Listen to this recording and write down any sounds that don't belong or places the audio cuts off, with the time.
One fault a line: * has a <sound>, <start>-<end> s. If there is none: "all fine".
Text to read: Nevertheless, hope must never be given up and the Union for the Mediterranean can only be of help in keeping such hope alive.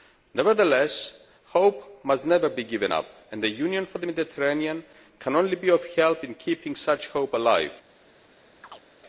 * has a chirp, 8.6-8.9 s